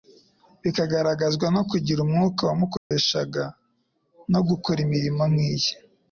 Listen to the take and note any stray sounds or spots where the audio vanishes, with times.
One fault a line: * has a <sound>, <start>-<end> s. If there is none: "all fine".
* has a dropout, 2.8-2.9 s